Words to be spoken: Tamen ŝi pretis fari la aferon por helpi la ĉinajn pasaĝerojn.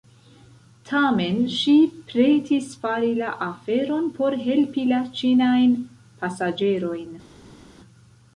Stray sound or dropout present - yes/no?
no